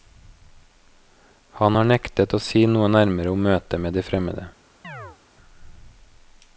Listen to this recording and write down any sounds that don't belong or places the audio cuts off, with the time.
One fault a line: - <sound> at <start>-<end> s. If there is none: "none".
- chirp at 4.8-5.2 s